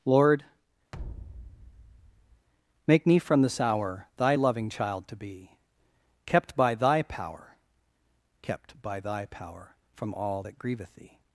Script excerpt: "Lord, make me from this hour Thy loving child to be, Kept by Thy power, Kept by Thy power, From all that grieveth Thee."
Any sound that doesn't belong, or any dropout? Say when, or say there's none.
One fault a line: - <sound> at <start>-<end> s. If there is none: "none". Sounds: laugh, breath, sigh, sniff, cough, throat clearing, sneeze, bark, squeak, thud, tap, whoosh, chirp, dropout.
- thud at 0.9-2.5 s